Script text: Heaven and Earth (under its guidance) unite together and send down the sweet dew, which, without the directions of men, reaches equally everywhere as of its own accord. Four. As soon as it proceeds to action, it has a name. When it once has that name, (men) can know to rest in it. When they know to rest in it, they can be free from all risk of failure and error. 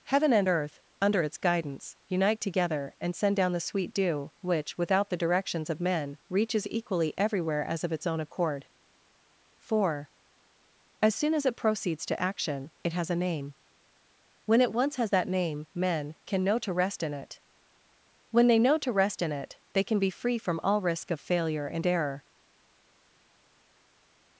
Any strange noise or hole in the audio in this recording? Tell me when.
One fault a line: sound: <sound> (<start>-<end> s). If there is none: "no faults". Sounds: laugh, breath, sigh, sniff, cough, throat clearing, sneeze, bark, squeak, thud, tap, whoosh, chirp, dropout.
no faults